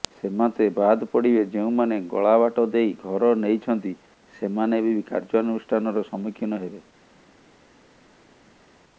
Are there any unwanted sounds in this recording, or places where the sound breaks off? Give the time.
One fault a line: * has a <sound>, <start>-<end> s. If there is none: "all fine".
all fine